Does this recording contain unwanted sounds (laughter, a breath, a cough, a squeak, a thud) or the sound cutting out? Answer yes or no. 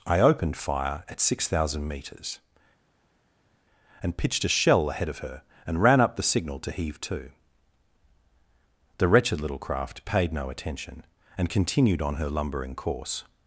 no